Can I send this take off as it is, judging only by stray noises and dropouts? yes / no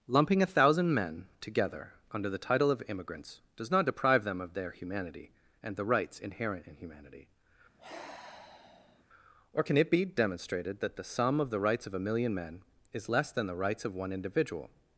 no